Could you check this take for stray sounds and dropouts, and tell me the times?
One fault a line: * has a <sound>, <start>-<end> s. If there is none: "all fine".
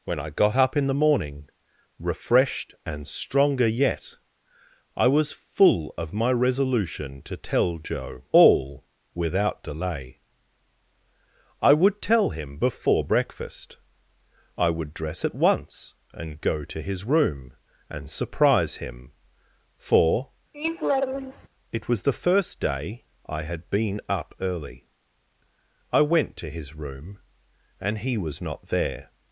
* has a laugh, 20.5-21.5 s